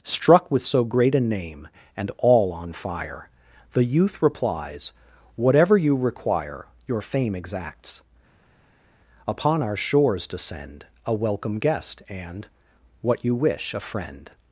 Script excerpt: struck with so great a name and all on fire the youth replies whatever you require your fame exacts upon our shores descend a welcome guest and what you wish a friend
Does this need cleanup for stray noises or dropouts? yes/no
no